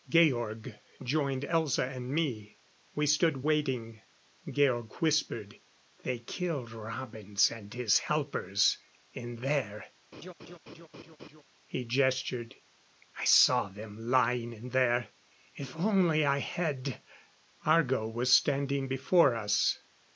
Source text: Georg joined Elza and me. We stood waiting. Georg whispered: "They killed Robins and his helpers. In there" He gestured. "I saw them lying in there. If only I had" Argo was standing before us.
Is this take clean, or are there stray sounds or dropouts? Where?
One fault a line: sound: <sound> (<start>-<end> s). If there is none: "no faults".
sound: laugh (10.1-11.4 s)